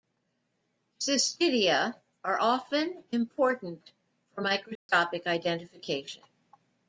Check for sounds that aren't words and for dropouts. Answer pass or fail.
fail